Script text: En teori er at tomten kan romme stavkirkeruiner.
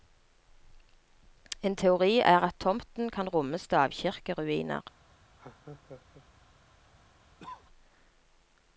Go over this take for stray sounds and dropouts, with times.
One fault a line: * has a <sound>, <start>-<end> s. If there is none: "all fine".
* has a laugh, 5.4-6.3 s
* has a cough, 7.4-7.6 s